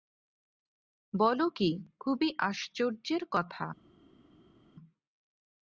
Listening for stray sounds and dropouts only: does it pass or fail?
pass